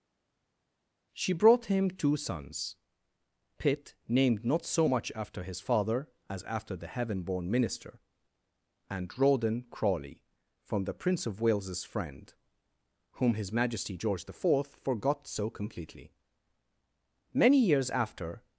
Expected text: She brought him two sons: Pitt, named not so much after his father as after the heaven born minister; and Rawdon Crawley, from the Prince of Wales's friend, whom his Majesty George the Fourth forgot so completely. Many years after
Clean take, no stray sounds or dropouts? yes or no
yes